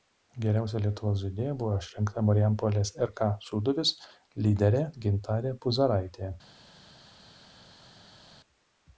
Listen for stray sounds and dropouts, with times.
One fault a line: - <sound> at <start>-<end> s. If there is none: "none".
none